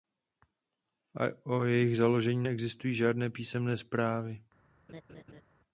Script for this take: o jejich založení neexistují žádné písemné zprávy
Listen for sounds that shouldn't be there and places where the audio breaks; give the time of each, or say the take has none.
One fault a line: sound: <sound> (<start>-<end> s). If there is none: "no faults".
sound: laugh (4.9-5.4 s)